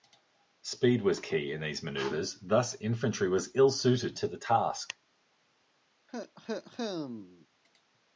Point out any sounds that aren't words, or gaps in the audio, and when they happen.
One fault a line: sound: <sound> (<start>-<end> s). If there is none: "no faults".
sound: cough (6.1-7.5 s)